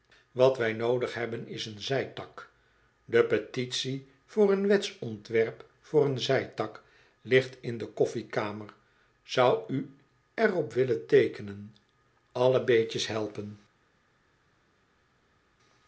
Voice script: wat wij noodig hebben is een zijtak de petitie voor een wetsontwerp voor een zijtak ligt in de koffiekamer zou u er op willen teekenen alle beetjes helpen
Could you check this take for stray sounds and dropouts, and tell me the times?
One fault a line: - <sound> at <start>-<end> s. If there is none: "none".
none